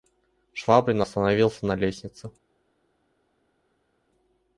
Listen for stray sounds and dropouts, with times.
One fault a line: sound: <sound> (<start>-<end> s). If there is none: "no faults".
no faults